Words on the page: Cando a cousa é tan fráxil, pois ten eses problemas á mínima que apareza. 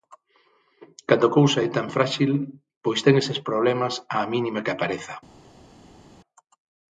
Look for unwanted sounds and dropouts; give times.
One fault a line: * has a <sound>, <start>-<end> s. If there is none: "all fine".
all fine